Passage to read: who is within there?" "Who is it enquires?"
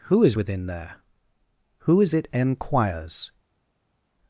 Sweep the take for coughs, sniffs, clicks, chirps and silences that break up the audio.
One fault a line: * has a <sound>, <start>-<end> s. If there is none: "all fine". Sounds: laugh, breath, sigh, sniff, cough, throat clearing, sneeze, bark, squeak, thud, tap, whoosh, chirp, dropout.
all fine